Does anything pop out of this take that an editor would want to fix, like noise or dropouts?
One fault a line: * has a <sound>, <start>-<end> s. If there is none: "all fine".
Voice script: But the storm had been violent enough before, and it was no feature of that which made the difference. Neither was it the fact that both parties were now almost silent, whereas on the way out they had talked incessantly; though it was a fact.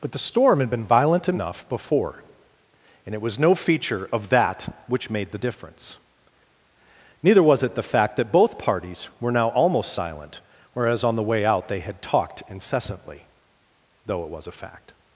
all fine